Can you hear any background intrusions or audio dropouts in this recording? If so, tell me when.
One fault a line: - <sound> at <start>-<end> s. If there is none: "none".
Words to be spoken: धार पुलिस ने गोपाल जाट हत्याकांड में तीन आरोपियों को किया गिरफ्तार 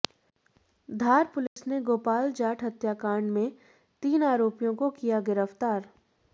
- dropout at 1.5-1.6 s